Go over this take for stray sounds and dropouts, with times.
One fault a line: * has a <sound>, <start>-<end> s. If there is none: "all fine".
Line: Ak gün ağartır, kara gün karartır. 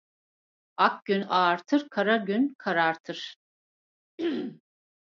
* has a throat clearing, 4.2-4.6 s